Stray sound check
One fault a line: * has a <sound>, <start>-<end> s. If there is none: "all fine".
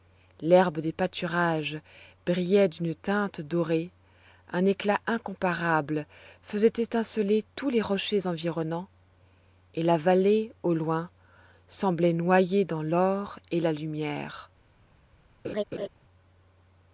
* has a laugh, 15.4-15.9 s